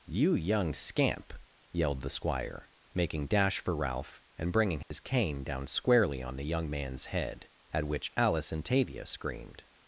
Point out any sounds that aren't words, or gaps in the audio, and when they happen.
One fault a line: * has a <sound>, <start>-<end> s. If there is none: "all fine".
* has a dropout, 4.8-4.9 s